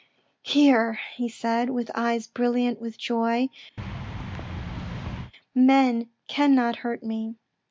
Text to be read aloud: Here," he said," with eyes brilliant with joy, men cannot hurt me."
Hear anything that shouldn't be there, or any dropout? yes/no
yes